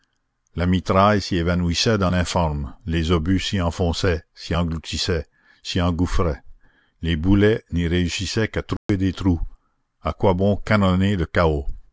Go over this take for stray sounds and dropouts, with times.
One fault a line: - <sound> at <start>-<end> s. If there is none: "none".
- dropout at 8.8-8.9 s